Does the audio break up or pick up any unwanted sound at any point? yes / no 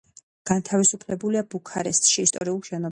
yes